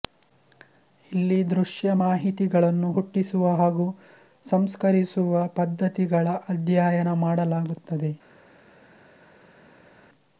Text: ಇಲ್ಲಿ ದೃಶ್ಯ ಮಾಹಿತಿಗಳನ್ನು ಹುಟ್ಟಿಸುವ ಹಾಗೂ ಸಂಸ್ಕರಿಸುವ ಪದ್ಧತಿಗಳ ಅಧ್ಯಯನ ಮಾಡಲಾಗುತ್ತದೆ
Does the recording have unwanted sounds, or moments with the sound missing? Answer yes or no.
no